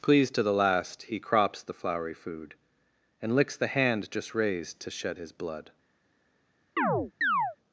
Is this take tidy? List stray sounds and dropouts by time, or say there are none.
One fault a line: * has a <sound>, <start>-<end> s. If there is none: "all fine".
* has a chirp, 6.8-7.6 s